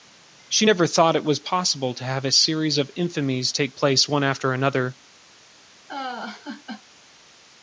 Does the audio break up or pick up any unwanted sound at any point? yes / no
yes